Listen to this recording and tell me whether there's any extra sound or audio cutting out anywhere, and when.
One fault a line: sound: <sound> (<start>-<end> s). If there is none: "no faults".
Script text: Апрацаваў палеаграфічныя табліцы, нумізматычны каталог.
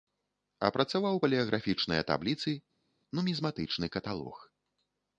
no faults